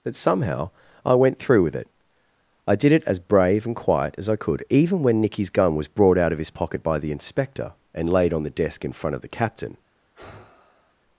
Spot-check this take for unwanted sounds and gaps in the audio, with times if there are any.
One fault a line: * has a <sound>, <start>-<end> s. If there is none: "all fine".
* has a sigh, 10.2-11.0 s